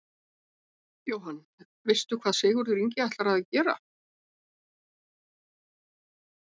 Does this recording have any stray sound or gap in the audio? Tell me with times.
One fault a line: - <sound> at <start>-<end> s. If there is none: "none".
none